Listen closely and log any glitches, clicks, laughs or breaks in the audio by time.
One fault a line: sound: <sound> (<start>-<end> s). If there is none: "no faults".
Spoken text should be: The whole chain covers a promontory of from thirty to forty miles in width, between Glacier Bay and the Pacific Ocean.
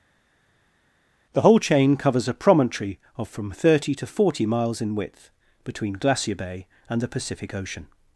no faults